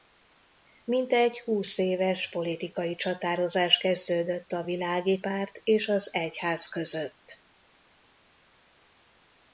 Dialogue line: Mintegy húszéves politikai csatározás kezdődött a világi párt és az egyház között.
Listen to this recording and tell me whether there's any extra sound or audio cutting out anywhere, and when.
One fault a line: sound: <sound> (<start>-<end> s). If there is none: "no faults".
no faults